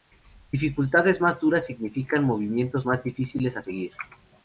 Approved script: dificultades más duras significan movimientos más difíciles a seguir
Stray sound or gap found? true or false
false